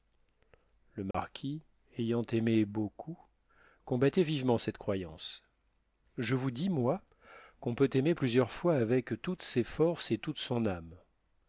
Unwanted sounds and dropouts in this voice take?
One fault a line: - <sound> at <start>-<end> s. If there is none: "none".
- dropout at 1.1-1.1 s